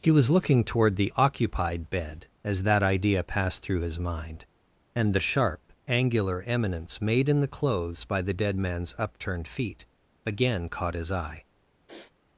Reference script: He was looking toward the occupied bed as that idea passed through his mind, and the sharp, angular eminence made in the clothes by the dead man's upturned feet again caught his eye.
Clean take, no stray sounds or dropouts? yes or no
no